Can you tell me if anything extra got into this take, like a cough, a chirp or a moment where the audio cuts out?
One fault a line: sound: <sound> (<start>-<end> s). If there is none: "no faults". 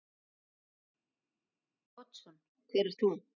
no faults